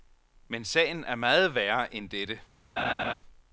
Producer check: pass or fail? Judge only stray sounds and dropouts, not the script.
fail